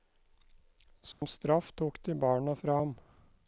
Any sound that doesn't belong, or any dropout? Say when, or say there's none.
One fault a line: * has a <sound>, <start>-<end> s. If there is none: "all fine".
* has a dropout, 1.1-1.2 s